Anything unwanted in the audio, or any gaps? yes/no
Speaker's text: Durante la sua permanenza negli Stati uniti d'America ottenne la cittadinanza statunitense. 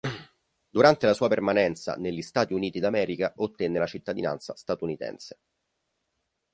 no